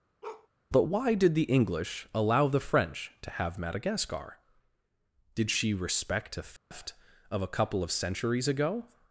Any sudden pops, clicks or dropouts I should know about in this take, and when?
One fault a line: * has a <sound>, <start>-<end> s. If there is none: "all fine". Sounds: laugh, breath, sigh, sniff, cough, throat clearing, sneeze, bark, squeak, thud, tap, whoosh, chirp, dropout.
* has a bark, 0.2-0.5 s
* has a dropout, 6.6-6.7 s